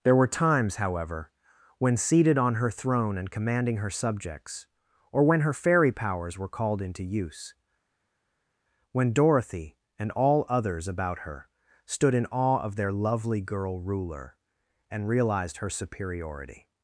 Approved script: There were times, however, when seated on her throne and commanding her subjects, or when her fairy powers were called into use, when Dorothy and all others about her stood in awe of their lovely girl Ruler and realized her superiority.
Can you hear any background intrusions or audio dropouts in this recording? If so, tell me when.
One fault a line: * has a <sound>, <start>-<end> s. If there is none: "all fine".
all fine